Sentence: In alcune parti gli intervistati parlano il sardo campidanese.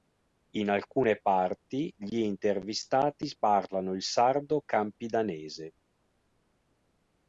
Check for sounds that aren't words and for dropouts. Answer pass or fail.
pass